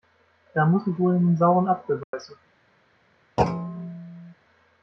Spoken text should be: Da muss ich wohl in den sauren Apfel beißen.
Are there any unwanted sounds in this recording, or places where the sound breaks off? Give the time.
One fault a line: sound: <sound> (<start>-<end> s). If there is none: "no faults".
sound: dropout (2.0-2.1 s)
sound: thud (3.4-4.3 s)